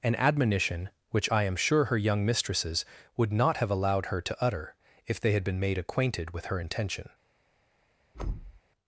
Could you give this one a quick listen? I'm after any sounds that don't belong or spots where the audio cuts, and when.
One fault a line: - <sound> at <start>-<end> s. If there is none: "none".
- thud at 8.1-8.6 s